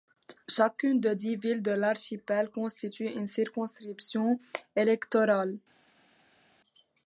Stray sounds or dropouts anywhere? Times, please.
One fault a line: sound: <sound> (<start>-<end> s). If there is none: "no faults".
no faults